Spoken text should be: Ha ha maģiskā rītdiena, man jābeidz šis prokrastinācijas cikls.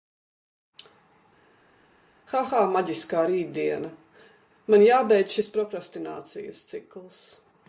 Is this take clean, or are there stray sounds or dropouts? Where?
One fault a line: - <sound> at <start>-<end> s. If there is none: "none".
none